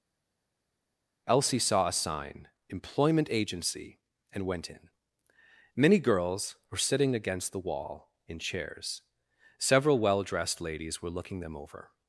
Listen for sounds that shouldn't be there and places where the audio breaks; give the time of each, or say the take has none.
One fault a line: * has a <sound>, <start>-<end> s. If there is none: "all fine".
all fine